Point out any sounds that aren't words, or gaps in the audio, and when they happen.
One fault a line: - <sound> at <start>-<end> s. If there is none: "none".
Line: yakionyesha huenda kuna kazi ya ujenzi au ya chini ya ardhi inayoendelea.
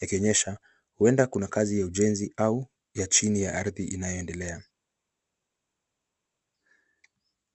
none